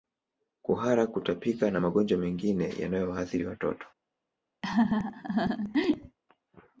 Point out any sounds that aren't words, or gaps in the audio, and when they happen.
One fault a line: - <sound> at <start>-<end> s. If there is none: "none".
- laugh at 4.6-6.2 s